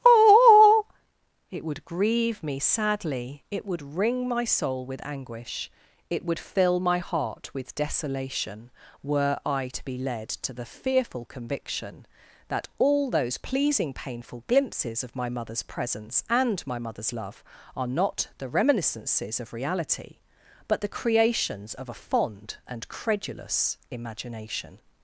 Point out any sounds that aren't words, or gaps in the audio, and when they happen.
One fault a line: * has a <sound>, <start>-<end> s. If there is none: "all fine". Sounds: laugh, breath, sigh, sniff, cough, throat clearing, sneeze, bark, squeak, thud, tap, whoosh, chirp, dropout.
all fine